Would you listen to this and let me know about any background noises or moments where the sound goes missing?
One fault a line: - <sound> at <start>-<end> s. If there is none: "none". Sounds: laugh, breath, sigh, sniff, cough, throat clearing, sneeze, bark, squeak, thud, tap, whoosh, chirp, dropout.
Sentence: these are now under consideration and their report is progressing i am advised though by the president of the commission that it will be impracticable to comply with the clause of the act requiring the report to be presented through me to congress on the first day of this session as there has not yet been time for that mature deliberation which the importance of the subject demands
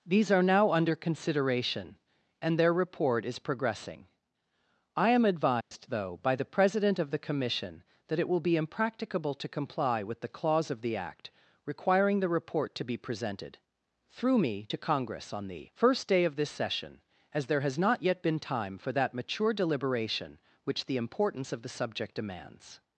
- dropout at 5.6-5.7 s